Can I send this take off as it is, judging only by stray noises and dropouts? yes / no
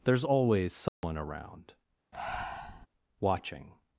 no